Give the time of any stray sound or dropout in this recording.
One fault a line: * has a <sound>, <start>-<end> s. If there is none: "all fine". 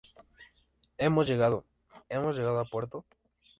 all fine